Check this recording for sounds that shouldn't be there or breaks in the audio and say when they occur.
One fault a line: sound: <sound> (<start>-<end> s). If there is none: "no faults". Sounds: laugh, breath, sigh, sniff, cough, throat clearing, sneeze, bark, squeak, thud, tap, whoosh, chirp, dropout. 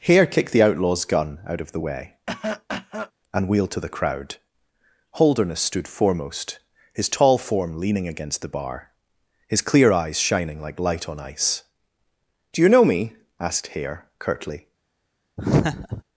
sound: cough (2.3-3.1 s)
sound: laugh (15.4-16.0 s)